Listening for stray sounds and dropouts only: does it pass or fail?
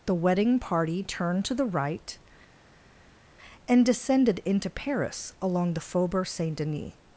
pass